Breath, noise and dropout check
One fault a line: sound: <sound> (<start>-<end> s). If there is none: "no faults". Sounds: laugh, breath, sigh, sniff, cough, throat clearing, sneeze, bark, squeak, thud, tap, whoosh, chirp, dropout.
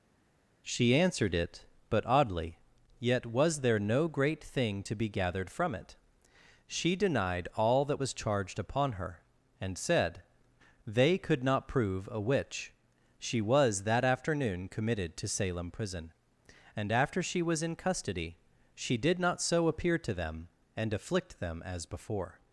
no faults